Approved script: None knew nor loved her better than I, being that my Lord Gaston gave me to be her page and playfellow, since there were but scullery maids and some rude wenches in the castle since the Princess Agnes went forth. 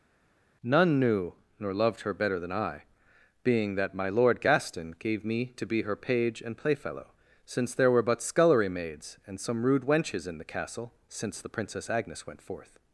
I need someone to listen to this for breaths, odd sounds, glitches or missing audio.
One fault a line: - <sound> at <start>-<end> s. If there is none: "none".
none